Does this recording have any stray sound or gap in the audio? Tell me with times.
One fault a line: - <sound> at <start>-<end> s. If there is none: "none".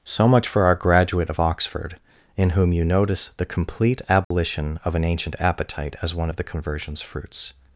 - dropout at 4.2-4.3 s